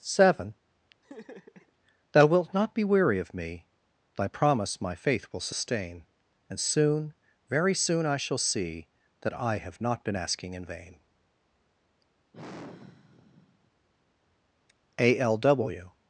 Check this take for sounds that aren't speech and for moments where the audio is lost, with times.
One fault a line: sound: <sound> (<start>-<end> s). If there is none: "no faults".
sound: laugh (1.0-1.7 s)
sound: sigh (12.3-13.7 s)